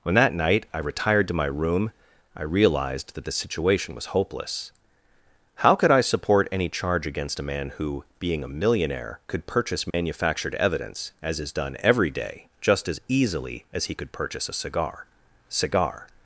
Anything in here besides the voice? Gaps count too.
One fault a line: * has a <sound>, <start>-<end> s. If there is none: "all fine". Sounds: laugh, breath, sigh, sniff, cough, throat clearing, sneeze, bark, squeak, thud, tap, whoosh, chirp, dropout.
* has a dropout, 9.9-9.9 s